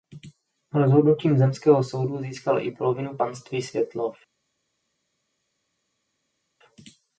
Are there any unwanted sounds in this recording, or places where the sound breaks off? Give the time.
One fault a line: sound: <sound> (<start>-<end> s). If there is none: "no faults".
no faults